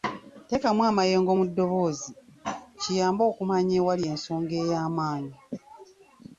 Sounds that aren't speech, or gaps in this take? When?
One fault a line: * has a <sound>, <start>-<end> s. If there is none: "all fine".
all fine